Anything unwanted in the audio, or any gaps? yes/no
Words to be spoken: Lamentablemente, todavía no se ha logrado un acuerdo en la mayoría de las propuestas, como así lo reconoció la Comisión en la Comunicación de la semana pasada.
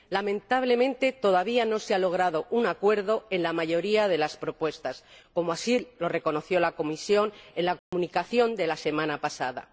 yes